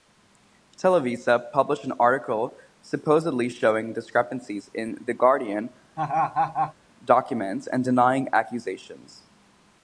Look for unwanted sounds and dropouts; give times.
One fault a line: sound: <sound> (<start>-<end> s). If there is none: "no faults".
sound: laugh (6.0-6.7 s)